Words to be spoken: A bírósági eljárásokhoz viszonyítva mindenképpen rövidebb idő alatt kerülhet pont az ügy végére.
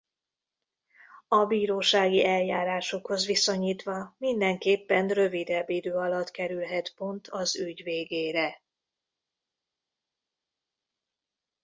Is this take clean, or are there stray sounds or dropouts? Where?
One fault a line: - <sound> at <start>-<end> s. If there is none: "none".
none